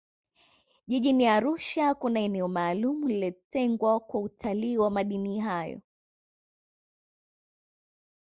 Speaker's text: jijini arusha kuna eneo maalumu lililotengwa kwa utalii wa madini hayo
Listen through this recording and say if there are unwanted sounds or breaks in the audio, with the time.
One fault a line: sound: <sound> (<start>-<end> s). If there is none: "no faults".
no faults